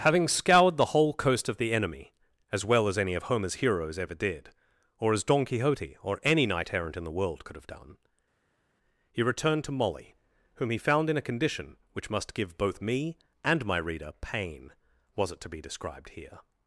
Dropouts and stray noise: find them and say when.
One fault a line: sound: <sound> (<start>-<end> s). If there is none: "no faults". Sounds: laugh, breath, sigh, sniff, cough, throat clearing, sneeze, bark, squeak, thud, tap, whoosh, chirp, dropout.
no faults